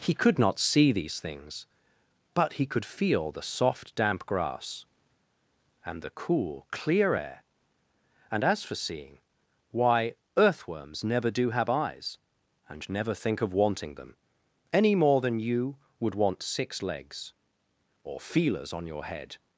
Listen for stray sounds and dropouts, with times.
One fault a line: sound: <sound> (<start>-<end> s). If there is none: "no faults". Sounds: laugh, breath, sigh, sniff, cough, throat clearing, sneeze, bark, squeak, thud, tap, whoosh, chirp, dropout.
no faults